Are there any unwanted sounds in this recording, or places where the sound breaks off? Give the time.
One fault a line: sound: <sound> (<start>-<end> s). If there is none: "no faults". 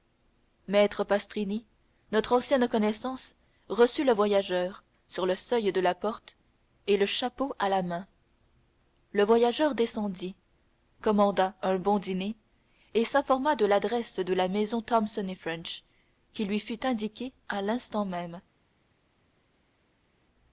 no faults